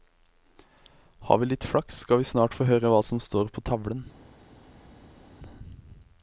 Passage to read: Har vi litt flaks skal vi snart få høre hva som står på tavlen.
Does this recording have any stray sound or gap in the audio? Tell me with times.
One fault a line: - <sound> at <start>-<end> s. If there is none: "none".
none